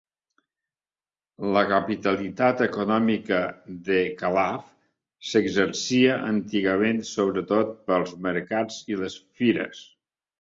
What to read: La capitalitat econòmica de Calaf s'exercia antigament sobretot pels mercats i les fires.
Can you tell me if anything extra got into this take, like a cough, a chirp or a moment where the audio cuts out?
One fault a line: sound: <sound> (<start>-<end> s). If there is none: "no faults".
no faults